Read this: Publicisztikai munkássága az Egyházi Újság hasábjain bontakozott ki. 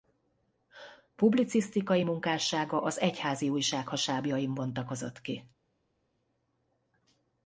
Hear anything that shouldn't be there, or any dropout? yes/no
no